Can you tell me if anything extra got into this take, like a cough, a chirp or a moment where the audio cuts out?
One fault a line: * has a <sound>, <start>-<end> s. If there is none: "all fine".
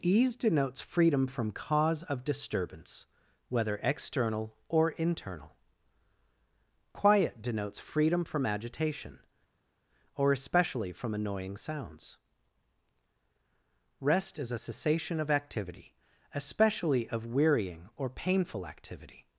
all fine